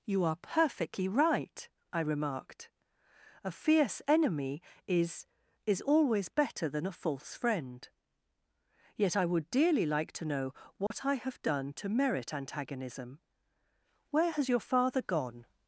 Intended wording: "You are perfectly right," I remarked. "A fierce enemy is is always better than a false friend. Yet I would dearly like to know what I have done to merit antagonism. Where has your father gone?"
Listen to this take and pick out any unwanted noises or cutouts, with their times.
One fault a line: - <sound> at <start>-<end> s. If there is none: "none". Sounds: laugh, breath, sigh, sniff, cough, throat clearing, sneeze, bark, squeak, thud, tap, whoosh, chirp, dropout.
- dropout at 10.9-10.9 s